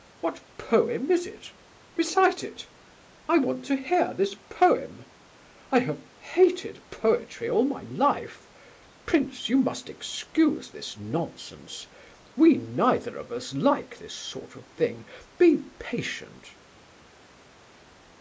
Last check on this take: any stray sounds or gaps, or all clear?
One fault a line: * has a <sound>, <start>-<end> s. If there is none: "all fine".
all fine